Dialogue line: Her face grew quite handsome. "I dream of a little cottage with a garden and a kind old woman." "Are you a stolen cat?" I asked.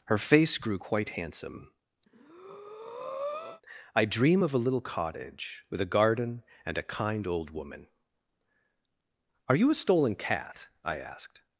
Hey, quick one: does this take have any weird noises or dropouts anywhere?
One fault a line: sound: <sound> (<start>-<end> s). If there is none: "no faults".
sound: breath (2.1-3.6 s)